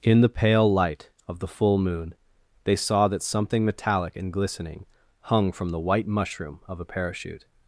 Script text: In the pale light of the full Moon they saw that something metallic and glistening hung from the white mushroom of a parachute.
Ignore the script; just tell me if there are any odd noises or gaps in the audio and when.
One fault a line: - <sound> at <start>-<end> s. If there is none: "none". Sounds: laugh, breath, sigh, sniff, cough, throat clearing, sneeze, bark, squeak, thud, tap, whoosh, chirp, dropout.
none